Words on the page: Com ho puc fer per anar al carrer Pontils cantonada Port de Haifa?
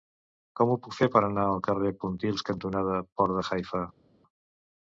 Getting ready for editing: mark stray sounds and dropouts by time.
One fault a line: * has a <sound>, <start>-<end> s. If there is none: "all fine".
all fine